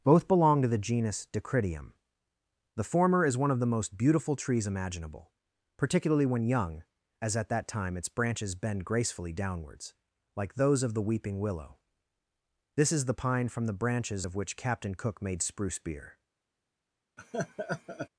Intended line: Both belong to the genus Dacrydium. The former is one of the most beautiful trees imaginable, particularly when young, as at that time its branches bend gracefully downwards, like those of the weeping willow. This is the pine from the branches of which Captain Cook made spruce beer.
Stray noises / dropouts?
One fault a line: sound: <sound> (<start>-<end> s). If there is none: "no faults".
sound: laugh (17.2-18.1 s)